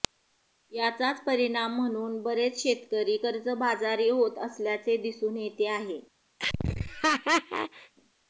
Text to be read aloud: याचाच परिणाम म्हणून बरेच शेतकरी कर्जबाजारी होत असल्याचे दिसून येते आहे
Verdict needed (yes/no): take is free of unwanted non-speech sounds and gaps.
no